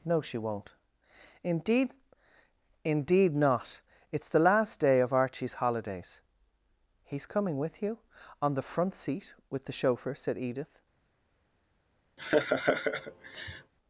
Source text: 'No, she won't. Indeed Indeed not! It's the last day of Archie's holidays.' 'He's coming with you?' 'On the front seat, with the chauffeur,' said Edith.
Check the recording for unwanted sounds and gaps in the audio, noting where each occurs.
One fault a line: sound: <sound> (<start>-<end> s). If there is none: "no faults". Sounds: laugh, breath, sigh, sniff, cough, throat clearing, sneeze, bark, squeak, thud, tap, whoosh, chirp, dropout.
sound: laugh (12.2-13.7 s)